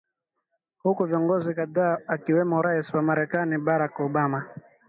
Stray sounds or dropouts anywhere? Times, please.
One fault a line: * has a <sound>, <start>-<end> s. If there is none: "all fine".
all fine